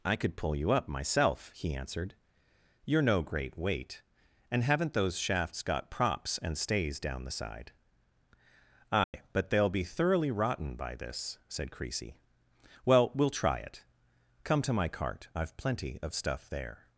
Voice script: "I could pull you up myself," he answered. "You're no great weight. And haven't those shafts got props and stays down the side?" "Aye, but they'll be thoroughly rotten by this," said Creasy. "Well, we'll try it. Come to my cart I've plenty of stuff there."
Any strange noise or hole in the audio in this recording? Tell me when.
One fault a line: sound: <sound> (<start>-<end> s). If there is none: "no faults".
sound: dropout (9.0-9.1 s)